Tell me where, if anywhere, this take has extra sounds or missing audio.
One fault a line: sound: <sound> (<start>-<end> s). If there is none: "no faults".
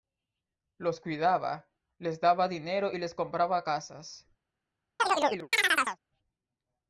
sound: chirp (5.0-6.0 s)